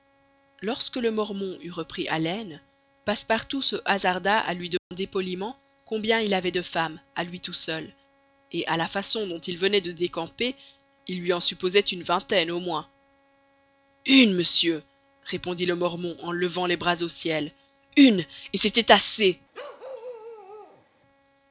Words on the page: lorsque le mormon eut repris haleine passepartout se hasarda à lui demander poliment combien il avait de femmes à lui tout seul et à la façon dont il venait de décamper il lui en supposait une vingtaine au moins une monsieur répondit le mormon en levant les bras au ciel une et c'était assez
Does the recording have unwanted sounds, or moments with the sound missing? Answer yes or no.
yes